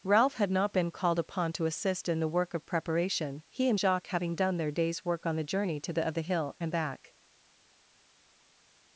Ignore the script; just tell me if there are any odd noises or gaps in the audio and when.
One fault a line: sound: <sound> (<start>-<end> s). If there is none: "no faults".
no faults